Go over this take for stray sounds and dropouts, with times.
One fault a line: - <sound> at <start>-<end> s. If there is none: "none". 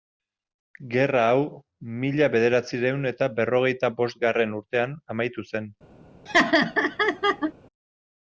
- laugh at 6.3-7.5 s